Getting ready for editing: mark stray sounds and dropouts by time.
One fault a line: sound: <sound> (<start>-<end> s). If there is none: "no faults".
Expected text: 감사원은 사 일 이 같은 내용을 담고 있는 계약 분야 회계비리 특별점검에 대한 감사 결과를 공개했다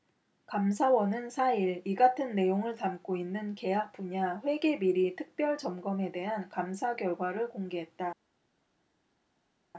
no faults